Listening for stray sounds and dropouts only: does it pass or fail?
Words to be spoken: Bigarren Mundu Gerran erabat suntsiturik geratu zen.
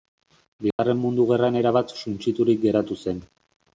fail